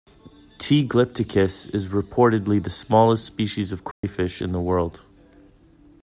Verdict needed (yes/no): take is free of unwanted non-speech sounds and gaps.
no